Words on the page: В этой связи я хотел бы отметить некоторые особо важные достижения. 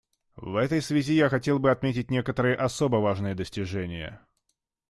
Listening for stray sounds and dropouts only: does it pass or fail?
pass